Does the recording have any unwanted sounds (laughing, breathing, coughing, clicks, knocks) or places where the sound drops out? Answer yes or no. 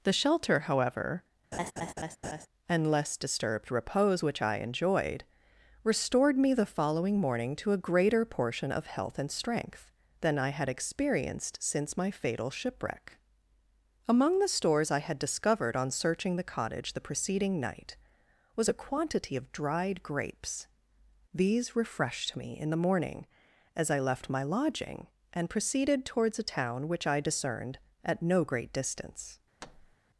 yes